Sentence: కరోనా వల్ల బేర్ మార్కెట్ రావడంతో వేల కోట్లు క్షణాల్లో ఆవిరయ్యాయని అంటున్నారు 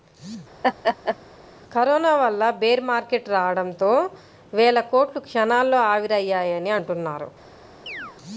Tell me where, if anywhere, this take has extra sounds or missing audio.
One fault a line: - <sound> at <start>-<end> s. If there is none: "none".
- laugh at 0.6-1.2 s
- chirp at 7.9-8.2 s